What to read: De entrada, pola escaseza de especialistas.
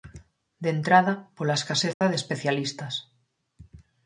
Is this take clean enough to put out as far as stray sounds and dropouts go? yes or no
no